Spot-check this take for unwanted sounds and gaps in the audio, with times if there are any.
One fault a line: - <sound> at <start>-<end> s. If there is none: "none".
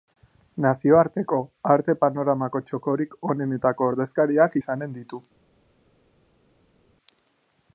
none